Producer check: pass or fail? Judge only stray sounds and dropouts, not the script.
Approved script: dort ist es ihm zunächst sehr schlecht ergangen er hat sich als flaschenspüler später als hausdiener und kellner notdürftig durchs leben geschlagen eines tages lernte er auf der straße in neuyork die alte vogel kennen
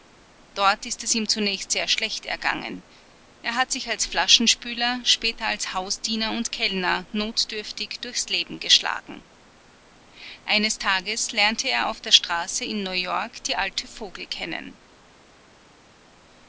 pass